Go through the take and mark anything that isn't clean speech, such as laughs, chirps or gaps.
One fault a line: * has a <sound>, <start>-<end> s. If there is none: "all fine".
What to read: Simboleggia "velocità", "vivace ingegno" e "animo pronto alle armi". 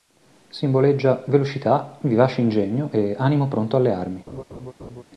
* has a laugh, 4.3-5.0 s